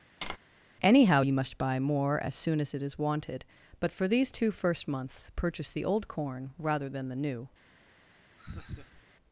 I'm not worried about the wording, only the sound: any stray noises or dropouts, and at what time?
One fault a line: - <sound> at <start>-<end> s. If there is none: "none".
- tap at 0.2-0.4 s
- laugh at 8.4-9.1 s